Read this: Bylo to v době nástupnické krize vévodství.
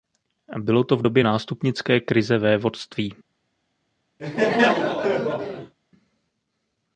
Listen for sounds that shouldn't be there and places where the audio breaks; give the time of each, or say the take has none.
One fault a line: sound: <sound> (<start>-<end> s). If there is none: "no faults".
sound: laugh (4.2-5.7 s)